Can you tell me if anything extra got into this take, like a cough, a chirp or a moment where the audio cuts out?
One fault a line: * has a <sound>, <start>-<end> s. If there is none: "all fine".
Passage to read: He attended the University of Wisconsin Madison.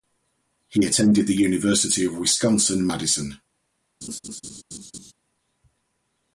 * has a laugh, 4.0-5.1 s